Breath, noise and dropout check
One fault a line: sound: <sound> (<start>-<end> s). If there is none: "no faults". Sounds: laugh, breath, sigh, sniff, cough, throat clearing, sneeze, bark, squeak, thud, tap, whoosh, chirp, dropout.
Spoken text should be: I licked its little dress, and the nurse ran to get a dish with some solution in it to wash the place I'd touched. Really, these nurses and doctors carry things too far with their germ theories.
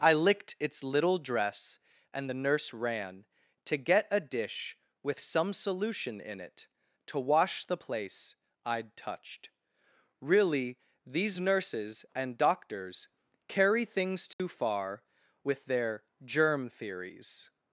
sound: dropout (14.3-14.4 s)